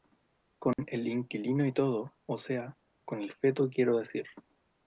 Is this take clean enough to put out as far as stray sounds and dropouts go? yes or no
no